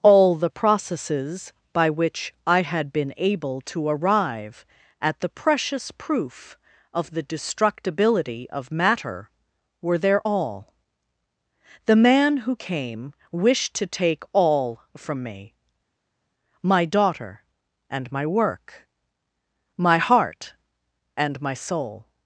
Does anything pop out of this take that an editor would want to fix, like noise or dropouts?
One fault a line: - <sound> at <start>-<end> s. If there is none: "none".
none